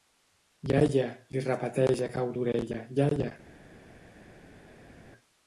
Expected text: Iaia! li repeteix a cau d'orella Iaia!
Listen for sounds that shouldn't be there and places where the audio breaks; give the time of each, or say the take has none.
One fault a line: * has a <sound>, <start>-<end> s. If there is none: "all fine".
all fine